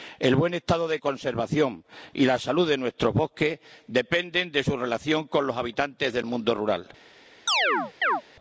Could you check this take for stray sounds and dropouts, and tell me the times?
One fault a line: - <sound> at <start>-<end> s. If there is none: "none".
- chirp at 7.5-8.2 s